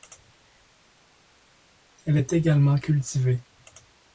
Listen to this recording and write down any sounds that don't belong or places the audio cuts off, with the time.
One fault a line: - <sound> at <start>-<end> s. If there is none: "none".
none